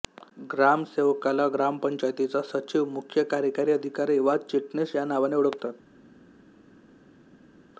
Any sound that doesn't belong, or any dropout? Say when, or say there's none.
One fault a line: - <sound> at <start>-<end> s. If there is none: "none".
none